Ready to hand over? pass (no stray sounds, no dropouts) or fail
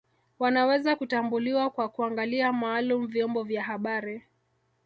pass